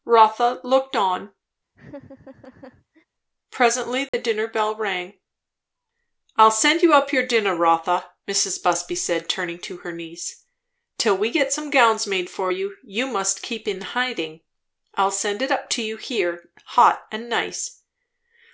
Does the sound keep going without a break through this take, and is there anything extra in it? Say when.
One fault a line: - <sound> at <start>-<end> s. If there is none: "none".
- laugh at 1.7-3.1 s
- dropout at 4.1-4.1 s